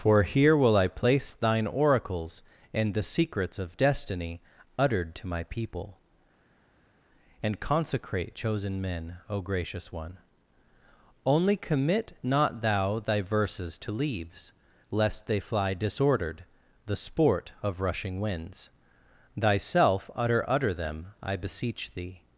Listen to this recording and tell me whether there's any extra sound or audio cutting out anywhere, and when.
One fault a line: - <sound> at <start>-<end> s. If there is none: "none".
none